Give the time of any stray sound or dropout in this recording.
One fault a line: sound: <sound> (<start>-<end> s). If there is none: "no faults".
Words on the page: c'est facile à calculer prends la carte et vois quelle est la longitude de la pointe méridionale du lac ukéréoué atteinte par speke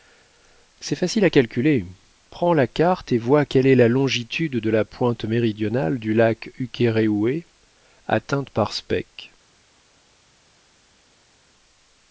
no faults